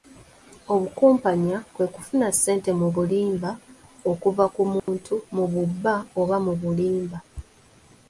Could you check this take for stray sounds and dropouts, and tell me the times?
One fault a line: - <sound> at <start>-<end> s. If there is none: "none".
- dropout at 4.8-4.9 s